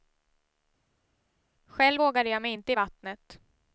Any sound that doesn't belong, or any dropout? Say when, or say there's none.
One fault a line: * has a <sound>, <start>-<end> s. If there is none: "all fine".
all fine